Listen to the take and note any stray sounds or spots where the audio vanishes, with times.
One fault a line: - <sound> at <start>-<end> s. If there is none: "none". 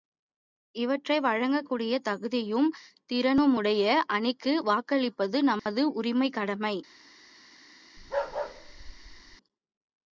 - dropout at 5.6-5.7 s
- bark at 8.0-9.4 s